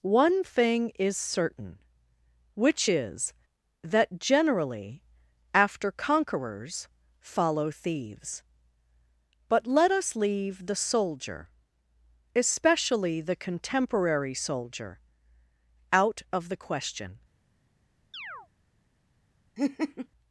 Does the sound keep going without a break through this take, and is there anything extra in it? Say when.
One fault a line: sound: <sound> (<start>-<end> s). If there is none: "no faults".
sound: chirp (18.1-18.5 s)
sound: laugh (19.6-20.1 s)